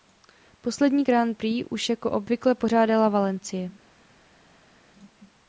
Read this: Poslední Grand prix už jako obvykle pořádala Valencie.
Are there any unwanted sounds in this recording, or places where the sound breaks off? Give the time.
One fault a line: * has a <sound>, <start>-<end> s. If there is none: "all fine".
all fine